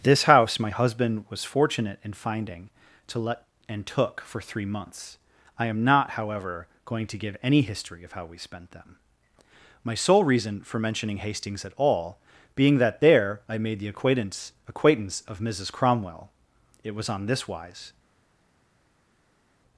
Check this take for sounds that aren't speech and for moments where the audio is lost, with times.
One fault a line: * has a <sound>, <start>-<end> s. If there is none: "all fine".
all fine